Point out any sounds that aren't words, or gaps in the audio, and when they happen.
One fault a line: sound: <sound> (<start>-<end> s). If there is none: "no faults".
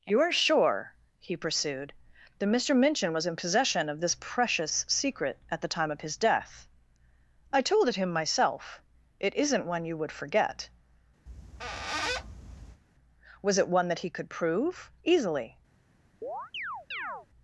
sound: squeak (11.3-12.8 s)
sound: chirp (16.2-17.3 s)